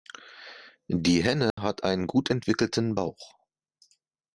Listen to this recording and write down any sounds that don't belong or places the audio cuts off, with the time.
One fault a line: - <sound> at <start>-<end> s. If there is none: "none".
- dropout at 1.5-1.6 s